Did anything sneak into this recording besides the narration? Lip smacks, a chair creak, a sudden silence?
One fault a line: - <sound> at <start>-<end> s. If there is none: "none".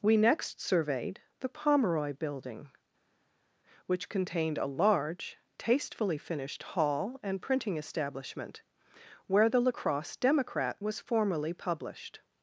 none